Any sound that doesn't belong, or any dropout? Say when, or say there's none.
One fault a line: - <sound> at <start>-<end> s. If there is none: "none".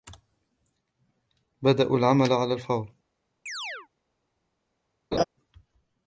- chirp at 3.5-3.9 s
- laugh at 5.1-5.2 s